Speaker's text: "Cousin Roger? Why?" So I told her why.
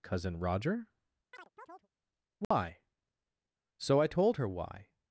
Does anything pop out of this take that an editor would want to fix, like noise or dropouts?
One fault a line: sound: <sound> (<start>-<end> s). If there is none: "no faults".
sound: chirp (1.3-1.9 s)
sound: dropout (2.4-2.5 s)